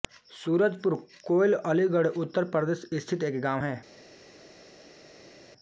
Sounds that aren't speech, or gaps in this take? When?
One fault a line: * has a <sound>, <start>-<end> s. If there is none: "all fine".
all fine